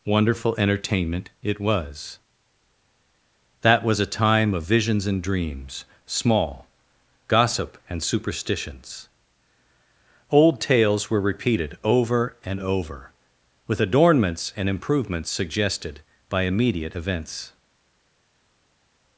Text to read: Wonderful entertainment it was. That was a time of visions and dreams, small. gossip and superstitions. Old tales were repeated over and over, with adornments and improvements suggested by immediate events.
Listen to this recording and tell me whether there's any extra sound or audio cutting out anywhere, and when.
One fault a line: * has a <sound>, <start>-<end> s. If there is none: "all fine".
all fine